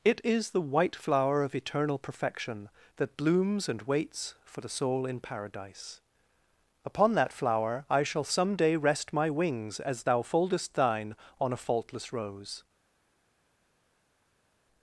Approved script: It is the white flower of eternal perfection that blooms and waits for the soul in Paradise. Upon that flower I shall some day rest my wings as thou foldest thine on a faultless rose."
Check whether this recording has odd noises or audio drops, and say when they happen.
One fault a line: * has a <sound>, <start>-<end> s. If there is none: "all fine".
all fine